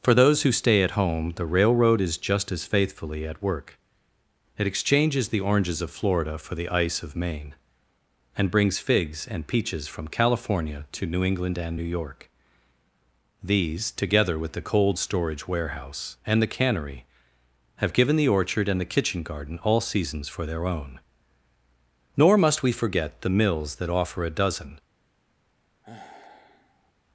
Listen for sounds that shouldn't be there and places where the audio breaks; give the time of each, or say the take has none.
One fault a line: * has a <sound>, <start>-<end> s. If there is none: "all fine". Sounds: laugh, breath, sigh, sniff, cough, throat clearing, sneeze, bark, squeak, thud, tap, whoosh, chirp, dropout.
* has a sigh, 25.8-26.9 s